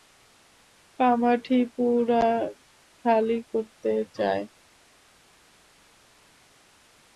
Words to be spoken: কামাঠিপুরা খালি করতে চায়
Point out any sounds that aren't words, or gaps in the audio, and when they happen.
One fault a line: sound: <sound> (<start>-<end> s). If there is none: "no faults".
no faults